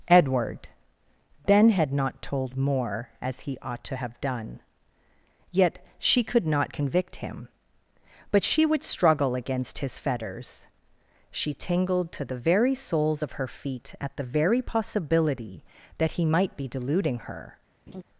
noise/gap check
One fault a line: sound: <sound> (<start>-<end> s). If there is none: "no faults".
sound: laugh (17.9-18.0 s)